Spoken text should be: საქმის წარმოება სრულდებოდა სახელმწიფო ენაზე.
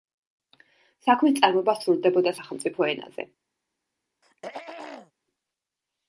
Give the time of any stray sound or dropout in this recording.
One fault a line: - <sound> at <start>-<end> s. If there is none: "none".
- throat clearing at 4.2-5.1 s